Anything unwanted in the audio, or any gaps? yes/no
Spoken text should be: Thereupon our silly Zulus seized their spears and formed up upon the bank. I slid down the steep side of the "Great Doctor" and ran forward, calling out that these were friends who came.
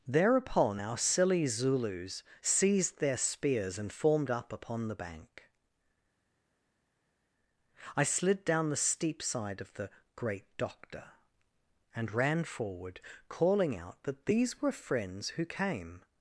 no